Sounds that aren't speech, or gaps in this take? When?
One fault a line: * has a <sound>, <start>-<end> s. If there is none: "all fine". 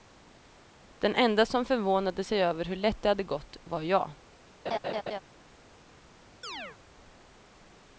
* has a laugh, 4.7-5.2 s
* has a chirp, 6.4-6.8 s